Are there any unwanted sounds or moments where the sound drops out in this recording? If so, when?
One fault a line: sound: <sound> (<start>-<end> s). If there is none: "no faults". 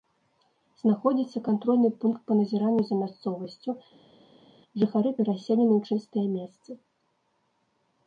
no faults